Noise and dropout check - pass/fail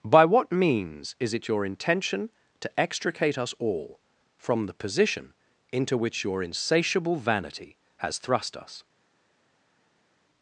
pass